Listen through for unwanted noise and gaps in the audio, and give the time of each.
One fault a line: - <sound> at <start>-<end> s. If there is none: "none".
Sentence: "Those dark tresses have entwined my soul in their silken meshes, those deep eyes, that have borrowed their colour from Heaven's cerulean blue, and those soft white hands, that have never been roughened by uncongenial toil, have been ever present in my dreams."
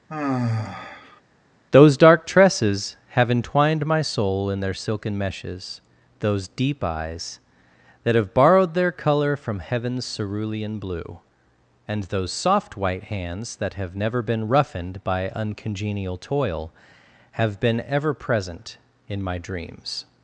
- sigh at 0.1-1.2 s